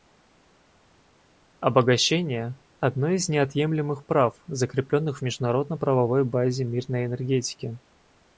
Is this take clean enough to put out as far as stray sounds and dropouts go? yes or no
yes